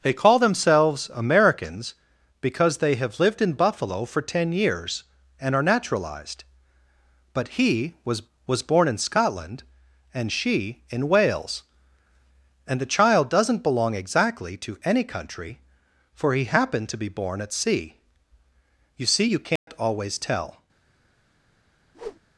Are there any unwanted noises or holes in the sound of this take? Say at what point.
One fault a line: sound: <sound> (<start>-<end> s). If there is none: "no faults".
sound: dropout (19.6-19.7 s)
sound: whoosh (21.9-22.2 s)